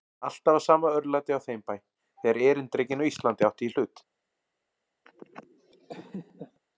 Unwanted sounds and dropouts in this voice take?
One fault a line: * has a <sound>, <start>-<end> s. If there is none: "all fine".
* has a laugh, 5.1-6.6 s